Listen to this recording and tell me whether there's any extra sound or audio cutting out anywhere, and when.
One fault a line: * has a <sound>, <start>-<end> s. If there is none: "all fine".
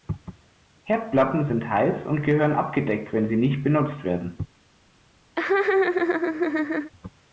* has a laugh, 5.4-6.9 s